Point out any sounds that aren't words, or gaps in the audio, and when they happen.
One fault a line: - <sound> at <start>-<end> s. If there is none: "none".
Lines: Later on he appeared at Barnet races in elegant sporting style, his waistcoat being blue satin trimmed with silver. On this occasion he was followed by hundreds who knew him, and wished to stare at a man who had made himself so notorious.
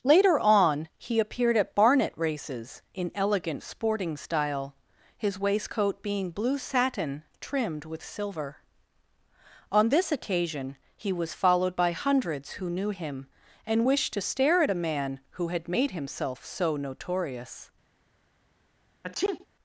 - sneeze at 19.0-19.5 s